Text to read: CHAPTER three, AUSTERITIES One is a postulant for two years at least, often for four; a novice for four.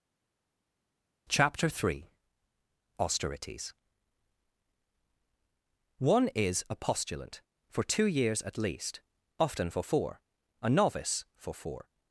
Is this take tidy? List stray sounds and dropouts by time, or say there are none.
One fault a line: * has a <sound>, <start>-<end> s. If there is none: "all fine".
all fine